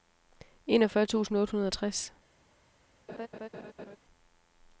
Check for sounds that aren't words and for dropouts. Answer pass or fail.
fail